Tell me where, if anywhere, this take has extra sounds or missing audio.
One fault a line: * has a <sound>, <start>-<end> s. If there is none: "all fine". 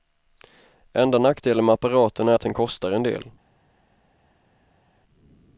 all fine